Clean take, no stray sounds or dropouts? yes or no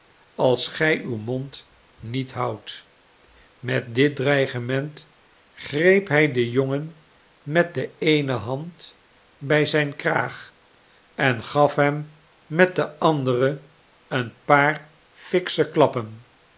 yes